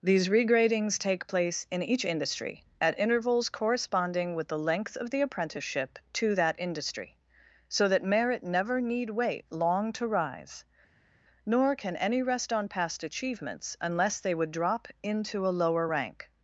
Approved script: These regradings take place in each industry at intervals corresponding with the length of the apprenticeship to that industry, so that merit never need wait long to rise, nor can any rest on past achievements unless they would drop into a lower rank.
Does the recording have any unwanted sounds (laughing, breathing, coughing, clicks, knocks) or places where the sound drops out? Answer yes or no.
no